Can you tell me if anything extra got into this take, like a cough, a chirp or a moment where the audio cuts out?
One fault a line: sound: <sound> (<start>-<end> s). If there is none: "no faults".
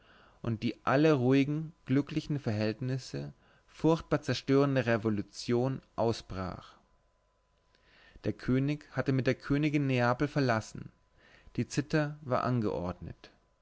no faults